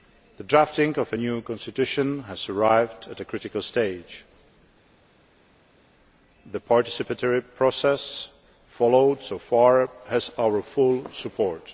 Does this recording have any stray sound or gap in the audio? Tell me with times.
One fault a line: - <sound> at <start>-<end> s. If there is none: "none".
none